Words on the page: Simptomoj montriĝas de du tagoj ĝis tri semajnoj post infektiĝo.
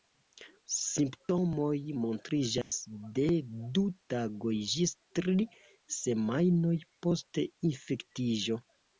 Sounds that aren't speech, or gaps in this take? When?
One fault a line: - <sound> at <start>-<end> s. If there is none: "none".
- dropout at 2.6-2.7 s